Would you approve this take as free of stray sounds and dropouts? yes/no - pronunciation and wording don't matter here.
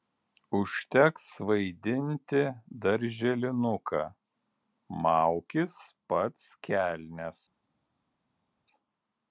yes